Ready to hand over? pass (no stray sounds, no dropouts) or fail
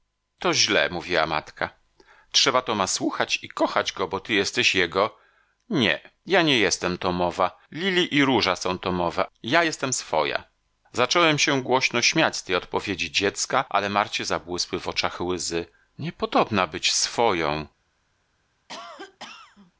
fail